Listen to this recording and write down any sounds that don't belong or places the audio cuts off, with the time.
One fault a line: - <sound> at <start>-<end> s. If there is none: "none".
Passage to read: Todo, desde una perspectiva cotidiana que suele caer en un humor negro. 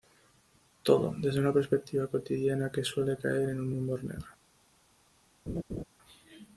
- laugh at 5.5-5.8 s